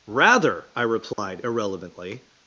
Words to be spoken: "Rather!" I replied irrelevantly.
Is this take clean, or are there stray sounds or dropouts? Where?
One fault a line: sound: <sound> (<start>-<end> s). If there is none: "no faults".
sound: dropout (1.1-1.2 s)